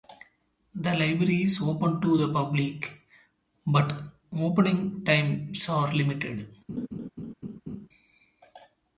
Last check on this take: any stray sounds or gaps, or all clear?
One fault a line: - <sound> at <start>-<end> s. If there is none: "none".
- laugh at 6.7-7.9 s